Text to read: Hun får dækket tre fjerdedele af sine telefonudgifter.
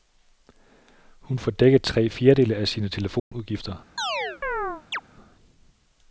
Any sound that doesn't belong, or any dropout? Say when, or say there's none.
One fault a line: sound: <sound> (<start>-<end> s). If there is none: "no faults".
sound: dropout (3.2-3.3 s)
sound: chirp (4.0-5.0 s)